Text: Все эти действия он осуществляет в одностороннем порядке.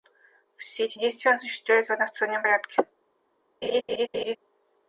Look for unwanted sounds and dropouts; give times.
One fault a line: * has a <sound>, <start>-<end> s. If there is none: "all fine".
* has a laugh, 3.6-4.4 s